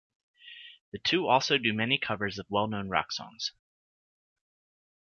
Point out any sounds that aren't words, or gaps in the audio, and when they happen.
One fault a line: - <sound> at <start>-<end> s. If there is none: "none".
none